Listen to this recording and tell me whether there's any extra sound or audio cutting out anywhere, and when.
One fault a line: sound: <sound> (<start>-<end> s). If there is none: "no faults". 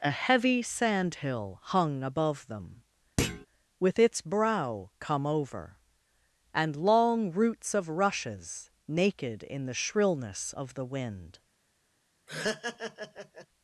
sound: thud (3.2-3.5 s)
sound: laugh (12.3-13.5 s)